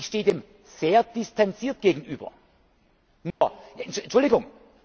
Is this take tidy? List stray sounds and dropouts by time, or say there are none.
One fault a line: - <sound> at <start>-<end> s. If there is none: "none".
- dropout at 3.3-3.4 s